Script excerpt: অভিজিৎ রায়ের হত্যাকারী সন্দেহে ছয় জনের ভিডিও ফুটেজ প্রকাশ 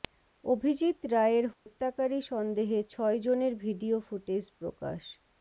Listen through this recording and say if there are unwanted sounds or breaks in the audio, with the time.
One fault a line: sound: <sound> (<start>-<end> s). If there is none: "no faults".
sound: dropout (1.5-1.7 s)